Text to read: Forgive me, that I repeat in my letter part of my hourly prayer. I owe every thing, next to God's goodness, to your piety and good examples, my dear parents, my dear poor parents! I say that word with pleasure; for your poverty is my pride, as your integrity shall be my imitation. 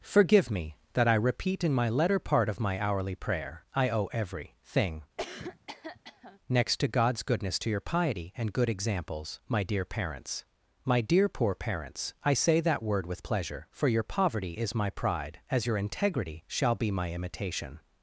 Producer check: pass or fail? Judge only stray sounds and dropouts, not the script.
fail